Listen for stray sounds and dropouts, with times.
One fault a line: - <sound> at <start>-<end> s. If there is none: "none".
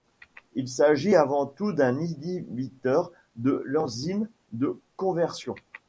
none